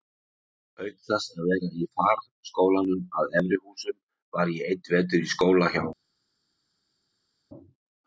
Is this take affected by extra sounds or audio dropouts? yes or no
no